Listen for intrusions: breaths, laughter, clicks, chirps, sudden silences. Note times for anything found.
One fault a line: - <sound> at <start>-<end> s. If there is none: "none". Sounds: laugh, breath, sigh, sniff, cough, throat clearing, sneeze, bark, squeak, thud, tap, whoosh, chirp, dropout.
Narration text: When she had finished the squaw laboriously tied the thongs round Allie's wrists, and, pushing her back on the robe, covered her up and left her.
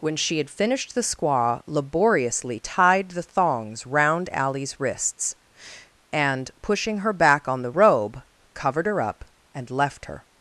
none